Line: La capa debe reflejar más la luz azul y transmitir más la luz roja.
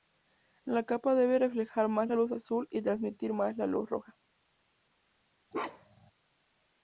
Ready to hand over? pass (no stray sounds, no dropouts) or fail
fail